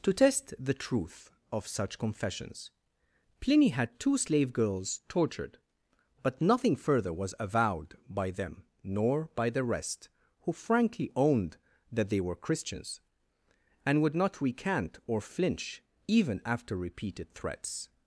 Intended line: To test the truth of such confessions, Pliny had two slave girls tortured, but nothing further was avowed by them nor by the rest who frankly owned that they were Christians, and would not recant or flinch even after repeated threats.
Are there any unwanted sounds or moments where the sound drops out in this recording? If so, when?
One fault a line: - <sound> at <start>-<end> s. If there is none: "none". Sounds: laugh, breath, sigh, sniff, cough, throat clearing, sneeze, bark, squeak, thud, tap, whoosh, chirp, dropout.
none